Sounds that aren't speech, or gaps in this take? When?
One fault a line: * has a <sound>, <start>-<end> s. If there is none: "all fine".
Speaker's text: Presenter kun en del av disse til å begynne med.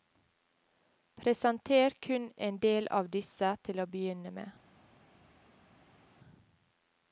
all fine